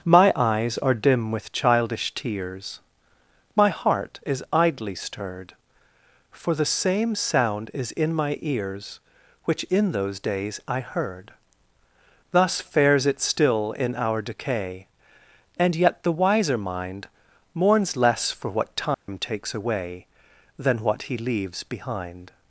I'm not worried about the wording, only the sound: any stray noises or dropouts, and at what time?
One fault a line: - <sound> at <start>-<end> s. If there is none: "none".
- dropout at 18.9-19.1 s